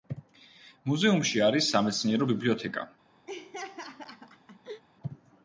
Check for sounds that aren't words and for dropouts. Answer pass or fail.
fail